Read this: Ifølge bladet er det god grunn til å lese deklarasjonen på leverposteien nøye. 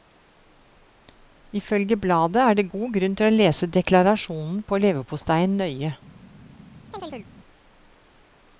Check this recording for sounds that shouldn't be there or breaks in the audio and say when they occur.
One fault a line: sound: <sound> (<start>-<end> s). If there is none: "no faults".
sound: chirp (6.9-7.3 s)